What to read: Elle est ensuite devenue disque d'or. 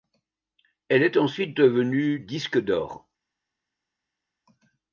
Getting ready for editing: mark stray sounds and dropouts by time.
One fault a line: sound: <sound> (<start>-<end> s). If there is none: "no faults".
no faults